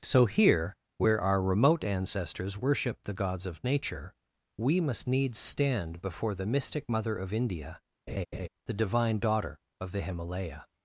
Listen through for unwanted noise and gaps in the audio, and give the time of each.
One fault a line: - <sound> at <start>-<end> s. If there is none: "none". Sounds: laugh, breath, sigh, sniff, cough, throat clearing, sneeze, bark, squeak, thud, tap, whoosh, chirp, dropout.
- laugh at 8.1-8.5 s